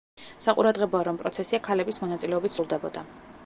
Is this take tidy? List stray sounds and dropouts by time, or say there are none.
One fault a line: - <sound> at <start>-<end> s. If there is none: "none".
none